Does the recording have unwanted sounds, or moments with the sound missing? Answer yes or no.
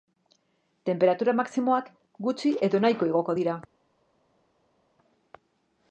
no